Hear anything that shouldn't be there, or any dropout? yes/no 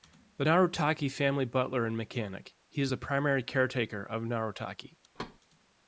yes